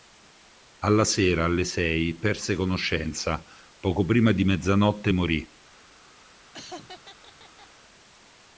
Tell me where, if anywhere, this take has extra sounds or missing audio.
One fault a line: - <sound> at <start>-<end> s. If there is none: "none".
- laugh at 6.5-7.7 s